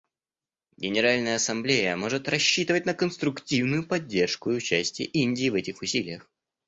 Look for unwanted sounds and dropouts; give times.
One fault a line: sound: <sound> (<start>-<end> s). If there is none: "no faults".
no faults